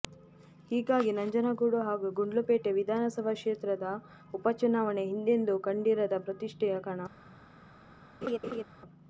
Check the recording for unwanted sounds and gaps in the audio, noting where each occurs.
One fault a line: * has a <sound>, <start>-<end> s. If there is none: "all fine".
* has a laugh, 8.2-8.6 s